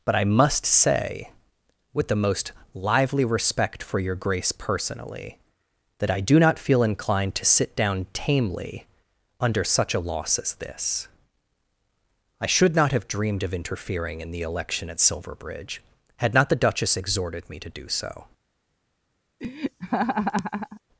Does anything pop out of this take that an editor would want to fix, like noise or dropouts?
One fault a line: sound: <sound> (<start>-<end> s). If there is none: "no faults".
sound: laugh (19.4-20.8 s)